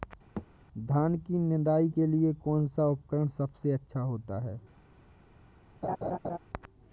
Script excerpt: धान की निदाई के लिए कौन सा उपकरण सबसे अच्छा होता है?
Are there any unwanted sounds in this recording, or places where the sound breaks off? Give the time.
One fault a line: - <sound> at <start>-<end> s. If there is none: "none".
- thud at 0.4-0.5 s
- laugh at 5.8-6.4 s